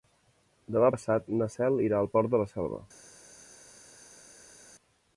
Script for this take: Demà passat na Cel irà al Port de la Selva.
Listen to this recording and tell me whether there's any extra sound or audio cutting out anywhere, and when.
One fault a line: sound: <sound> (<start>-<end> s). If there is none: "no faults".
no faults